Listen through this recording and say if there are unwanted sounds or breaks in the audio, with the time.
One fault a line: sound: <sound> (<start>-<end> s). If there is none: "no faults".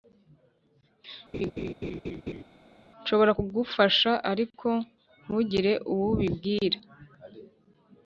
sound: laugh (1.3-2.4 s)